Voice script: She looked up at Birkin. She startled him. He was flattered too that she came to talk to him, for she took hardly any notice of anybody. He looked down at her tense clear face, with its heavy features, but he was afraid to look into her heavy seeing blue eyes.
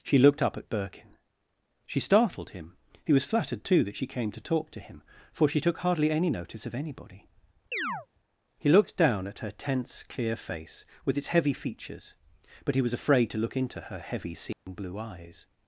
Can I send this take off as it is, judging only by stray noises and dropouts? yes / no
no